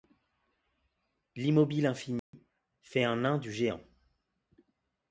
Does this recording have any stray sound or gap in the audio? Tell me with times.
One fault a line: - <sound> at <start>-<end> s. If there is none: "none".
- dropout at 2.2-2.3 s